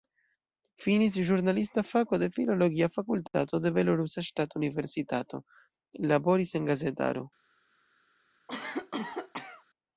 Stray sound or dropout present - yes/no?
yes